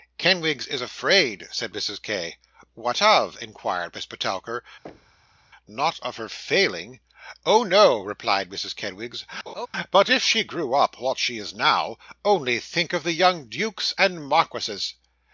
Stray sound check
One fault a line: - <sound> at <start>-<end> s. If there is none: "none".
- thud at 4.8-5.5 s
- laugh at 9.5-9.7 s